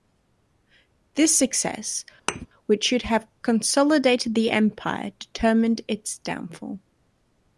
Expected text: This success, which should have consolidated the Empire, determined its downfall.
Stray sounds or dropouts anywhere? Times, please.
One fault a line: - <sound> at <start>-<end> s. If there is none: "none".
- thud at 2.3-2.5 s